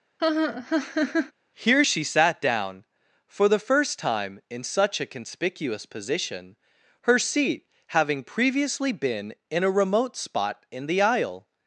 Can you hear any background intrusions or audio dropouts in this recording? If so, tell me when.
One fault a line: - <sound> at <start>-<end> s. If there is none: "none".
- laugh at 0.2-1.3 s